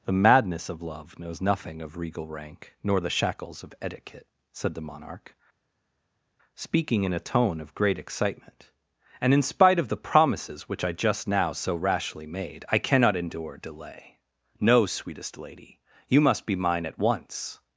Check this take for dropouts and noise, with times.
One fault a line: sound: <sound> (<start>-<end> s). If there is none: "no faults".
no faults